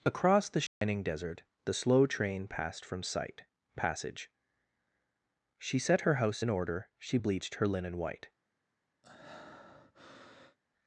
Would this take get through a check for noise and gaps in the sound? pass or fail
fail